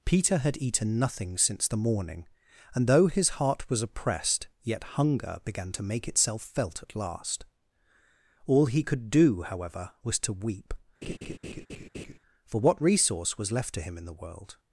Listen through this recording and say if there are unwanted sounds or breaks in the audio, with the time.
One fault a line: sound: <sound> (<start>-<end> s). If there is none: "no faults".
sound: laugh (11.0-12.2 s)